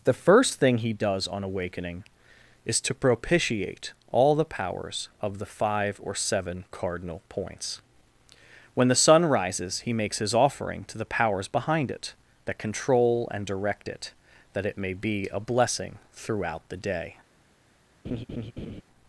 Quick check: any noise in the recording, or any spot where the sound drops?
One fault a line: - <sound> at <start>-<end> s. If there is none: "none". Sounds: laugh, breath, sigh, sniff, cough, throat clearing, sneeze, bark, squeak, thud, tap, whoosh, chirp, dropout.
- laugh at 18.0-18.8 s